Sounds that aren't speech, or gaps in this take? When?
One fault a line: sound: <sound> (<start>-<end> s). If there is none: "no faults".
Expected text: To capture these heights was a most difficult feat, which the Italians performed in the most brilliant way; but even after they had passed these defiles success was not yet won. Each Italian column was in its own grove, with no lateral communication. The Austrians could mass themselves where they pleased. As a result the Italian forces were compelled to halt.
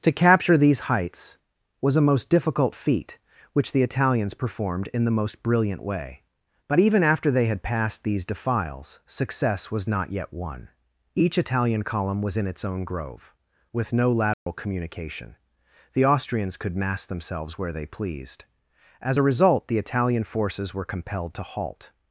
sound: dropout (14.3-14.5 s)